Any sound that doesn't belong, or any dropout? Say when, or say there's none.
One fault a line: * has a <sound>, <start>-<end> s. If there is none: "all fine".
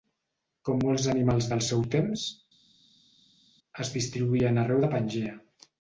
all fine